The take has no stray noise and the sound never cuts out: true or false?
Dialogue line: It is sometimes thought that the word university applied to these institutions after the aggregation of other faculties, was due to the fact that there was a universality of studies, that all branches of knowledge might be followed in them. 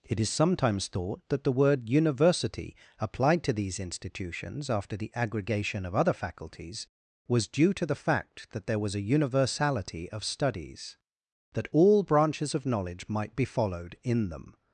true